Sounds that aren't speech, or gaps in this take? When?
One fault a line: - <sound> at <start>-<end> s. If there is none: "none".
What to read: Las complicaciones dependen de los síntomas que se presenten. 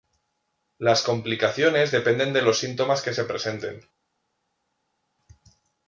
none